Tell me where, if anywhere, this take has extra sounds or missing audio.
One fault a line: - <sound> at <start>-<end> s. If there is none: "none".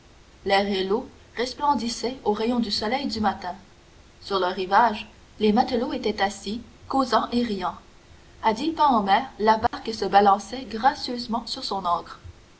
- dropout at 9.7-9.7 s